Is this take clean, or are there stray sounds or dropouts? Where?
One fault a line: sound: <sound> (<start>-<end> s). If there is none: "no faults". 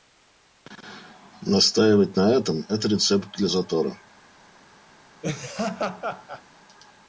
sound: laugh (5.2-6.4 s)